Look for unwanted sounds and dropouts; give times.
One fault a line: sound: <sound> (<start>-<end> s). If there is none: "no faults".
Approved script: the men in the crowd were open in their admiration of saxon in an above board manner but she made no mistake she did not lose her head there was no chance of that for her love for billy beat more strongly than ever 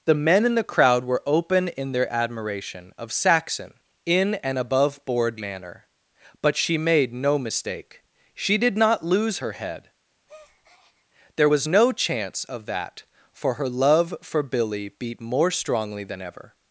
sound: breath (10.3-11.1 s)